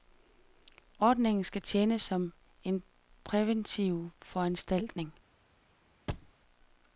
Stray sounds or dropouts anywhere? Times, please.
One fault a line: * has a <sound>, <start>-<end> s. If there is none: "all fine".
* has a thud, 6.1-6.3 s